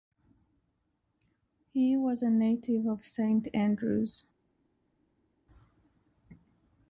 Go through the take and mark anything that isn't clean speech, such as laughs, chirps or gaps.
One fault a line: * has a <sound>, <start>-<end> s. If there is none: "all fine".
all fine